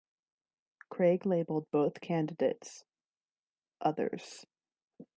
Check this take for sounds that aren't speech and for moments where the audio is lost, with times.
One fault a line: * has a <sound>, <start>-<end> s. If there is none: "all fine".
all fine